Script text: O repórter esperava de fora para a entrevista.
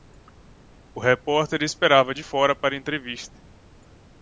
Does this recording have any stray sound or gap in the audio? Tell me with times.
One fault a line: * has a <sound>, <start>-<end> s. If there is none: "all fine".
all fine